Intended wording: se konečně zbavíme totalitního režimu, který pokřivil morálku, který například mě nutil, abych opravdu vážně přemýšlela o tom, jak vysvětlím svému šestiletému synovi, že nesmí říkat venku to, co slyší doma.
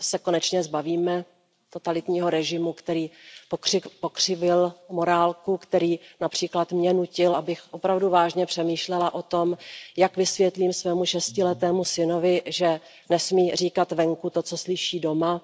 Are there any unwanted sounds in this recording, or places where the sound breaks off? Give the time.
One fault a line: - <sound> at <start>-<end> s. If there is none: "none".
none